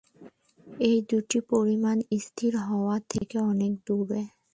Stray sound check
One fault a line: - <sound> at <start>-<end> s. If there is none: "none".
- dropout at 3.2-3.2 s